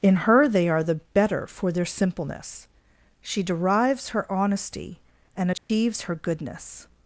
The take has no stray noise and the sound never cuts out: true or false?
false